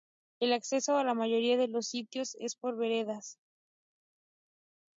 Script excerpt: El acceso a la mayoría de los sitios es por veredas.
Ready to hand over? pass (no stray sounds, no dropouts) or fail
pass